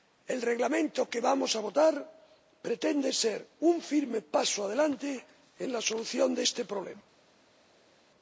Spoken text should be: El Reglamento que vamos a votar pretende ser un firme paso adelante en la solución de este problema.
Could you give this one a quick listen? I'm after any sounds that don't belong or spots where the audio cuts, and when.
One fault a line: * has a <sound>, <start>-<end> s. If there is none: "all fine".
all fine